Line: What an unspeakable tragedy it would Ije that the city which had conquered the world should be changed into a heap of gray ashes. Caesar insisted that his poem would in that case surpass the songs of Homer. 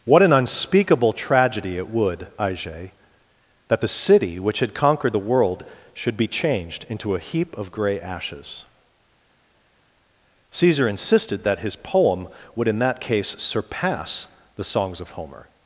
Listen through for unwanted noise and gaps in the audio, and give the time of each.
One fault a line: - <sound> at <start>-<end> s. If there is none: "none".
none